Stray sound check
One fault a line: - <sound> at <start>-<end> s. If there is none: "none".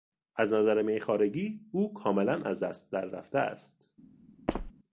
- squeak at 4.5-4.7 s